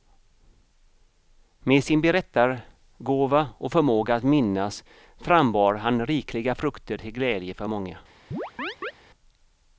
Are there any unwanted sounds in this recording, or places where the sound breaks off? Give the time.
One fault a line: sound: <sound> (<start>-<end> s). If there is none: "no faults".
sound: chirp (8.3-8.9 s)